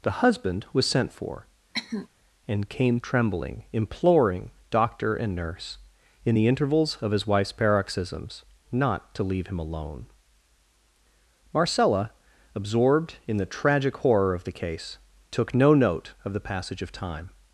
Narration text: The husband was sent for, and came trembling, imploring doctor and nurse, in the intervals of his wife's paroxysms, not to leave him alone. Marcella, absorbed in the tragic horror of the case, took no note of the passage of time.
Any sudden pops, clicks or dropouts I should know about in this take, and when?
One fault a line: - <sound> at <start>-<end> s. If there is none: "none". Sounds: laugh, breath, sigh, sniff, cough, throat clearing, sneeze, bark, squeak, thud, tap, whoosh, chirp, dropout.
- cough at 1.7-2.1 s